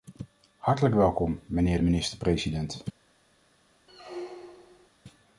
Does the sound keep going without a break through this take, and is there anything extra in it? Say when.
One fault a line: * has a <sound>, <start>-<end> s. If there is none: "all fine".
* has a squeak, 3.9-4.9 s